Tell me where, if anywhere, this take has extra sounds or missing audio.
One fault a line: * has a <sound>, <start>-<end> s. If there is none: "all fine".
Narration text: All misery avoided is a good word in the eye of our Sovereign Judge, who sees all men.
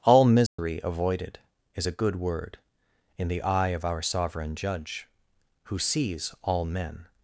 * has a dropout, 0.5-0.6 s